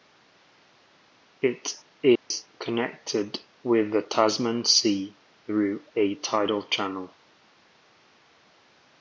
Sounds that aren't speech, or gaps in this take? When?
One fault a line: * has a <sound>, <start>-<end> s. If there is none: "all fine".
* has a dropout, 2.2-2.3 s